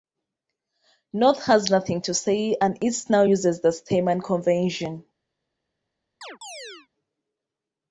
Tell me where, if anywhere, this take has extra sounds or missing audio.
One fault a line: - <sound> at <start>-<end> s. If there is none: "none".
- chirp at 6.2-6.9 s